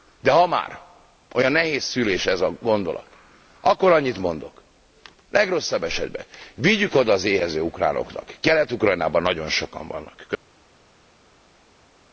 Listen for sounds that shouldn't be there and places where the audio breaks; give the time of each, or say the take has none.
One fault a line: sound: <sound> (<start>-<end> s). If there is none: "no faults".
no faults